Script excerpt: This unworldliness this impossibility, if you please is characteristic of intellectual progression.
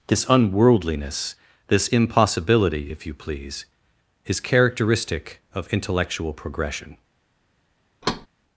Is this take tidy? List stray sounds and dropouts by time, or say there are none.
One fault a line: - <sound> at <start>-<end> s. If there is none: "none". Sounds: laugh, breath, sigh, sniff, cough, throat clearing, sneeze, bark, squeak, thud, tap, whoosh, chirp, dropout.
- thud at 8.0-8.3 s